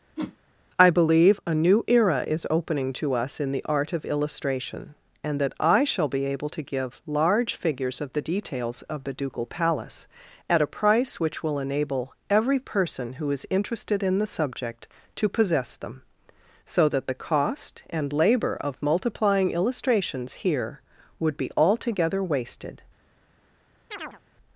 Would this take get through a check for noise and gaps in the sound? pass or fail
fail